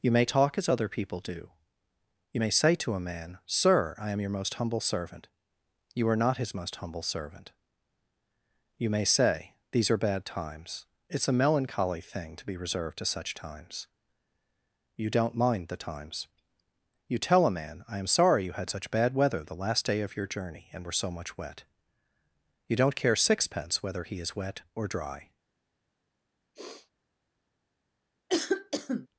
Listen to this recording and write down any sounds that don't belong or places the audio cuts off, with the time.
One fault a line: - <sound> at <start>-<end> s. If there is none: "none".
- sniff at 26.5-26.9 s
- cough at 28.3-29.1 s